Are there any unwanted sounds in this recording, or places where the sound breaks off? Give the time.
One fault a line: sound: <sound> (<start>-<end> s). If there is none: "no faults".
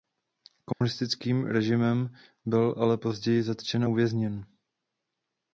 sound: dropout (0.7-0.8 s)